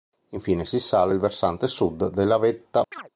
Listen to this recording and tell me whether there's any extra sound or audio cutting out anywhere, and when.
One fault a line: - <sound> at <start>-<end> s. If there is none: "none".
- chirp at 2.9-3.1 s